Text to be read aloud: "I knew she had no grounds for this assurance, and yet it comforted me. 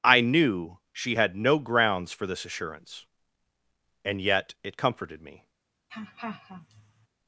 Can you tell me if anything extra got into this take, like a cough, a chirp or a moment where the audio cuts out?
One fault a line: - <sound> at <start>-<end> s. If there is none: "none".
- laugh at 5.9-7.1 s